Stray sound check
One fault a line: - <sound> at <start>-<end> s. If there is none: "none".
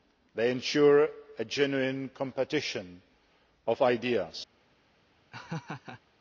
- laugh at 5.3-6.0 s